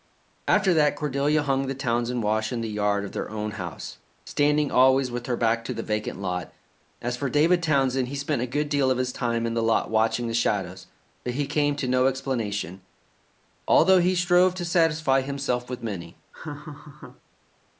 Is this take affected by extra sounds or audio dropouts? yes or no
yes